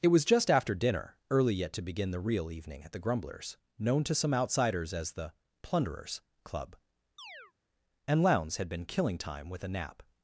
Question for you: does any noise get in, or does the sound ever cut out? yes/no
yes